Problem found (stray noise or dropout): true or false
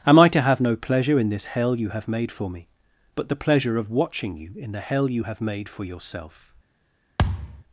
true